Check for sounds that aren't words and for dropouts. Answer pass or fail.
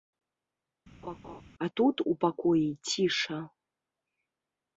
fail